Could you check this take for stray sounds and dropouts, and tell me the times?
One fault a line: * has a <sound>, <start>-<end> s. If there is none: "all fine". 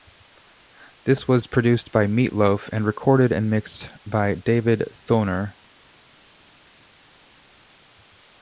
all fine